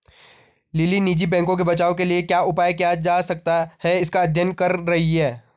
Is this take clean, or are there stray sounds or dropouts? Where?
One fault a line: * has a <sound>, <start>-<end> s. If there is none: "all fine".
all fine